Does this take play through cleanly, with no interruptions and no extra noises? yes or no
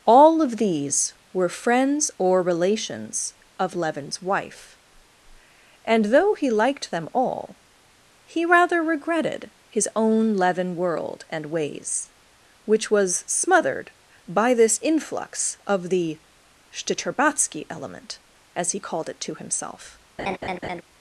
no